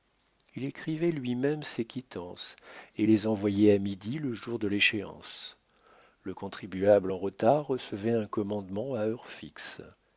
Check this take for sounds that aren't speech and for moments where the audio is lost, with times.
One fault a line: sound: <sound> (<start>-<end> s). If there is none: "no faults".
no faults